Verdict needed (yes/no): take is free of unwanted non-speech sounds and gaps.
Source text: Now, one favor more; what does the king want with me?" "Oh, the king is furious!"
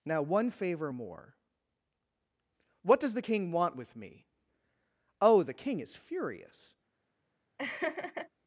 no